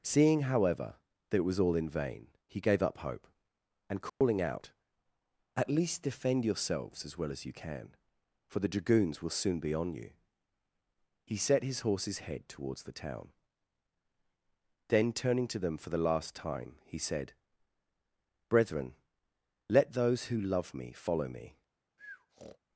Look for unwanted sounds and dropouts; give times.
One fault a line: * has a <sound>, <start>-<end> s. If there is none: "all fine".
* has a dropout, 4.1-4.2 s
* has a breath, 22.0-22.6 s